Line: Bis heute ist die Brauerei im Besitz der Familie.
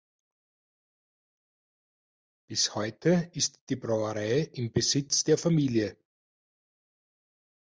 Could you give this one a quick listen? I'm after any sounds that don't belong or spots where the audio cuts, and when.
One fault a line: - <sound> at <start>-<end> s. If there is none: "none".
none